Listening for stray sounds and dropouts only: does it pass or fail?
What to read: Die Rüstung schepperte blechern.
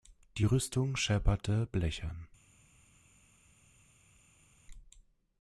pass